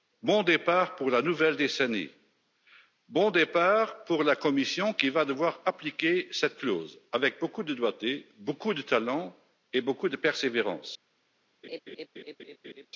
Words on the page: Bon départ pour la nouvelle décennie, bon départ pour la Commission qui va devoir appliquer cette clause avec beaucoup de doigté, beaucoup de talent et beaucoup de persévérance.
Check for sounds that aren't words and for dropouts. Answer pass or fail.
fail